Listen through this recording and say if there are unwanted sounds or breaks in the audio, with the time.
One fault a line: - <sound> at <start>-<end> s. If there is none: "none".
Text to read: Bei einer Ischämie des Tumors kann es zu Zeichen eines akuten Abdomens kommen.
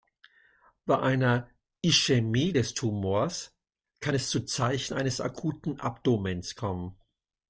none